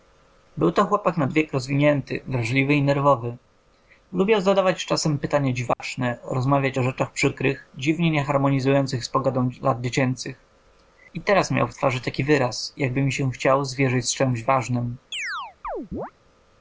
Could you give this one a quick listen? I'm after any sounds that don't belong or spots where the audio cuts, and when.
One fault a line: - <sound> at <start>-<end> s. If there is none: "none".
- dropout at 5.7-5.8 s
- chirp at 15.1-16.1 s